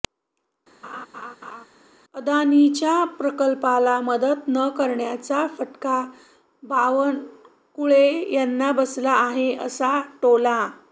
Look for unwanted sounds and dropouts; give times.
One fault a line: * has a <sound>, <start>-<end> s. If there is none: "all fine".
* has a laugh, 0.8-1.7 s